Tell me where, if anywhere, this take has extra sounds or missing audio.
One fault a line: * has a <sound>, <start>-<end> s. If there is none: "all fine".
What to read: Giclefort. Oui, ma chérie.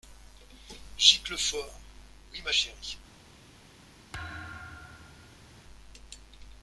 * has a thud, 4.1-5.6 s